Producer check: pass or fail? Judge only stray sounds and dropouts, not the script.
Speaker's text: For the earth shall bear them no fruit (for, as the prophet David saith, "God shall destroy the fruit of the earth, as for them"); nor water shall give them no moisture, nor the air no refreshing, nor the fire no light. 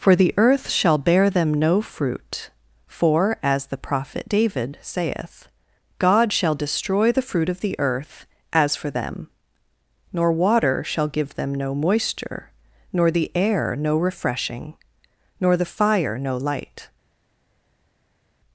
pass